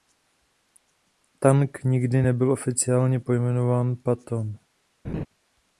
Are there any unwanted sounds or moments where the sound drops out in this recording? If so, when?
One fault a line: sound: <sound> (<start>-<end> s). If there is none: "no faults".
sound: laugh (5.0-5.3 s)